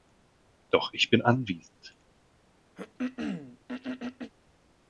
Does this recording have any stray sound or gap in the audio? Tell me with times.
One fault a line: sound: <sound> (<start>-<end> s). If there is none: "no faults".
sound: throat clearing (2.8-4.3 s)